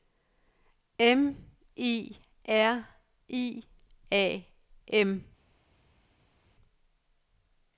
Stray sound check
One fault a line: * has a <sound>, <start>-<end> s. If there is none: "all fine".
all fine